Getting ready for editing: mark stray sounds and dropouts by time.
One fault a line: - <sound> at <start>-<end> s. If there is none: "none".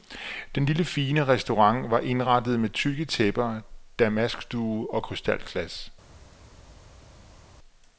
none